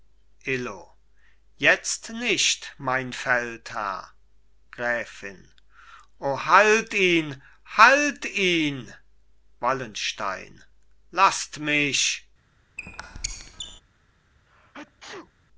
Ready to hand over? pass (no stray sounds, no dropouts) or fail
fail